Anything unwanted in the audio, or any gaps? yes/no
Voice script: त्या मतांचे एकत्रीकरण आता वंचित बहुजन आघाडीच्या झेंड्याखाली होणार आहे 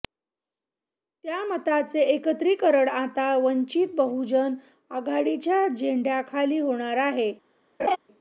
yes